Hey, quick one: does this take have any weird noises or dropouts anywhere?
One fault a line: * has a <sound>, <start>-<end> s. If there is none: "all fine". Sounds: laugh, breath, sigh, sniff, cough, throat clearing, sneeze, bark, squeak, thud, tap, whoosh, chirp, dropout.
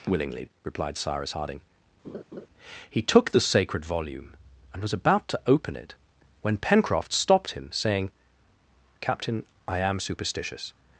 * has a laugh, 2.0-2.5 s